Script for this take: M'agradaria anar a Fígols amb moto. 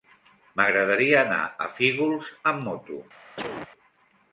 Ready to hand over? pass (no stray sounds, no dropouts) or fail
fail